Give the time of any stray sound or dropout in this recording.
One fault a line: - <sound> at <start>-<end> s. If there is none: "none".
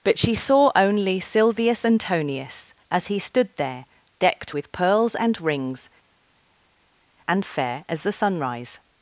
none